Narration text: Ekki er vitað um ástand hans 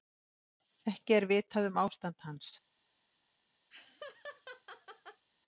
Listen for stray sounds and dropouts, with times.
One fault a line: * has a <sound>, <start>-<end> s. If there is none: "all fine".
* has a laugh, 3.7-5.2 s